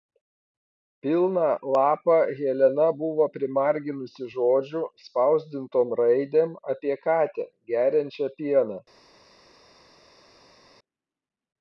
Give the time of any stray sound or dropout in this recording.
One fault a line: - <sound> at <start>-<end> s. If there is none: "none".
none